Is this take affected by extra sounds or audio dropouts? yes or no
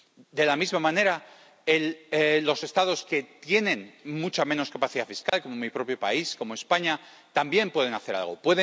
yes